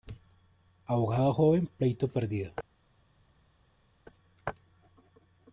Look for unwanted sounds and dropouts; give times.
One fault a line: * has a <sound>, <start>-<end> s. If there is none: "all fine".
all fine